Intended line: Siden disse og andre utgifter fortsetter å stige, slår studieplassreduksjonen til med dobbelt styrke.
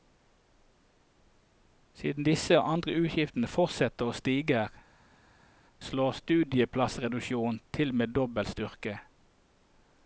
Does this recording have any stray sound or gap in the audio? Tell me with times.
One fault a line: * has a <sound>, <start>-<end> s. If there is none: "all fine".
all fine